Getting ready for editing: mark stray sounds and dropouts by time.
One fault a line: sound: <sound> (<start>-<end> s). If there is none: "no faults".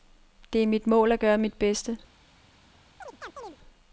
sound: chirp (3.0-3.6 s)